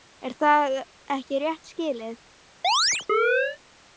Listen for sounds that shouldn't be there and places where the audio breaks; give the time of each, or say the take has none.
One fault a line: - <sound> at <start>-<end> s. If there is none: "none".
- chirp at 2.6-3.6 s